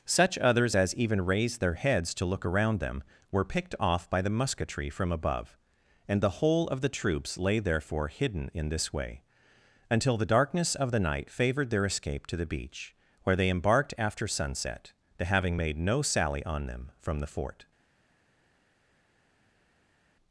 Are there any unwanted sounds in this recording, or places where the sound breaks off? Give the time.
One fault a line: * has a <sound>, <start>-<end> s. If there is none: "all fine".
all fine